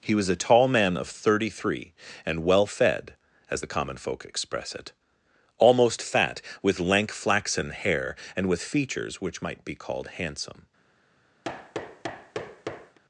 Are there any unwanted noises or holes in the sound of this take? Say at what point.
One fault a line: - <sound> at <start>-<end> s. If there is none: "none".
- thud at 11.4-13.0 s